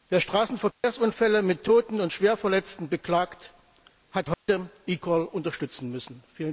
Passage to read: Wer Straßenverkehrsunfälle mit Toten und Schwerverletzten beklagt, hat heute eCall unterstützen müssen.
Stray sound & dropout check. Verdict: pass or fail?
fail